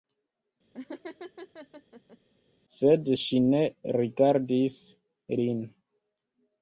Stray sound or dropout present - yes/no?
yes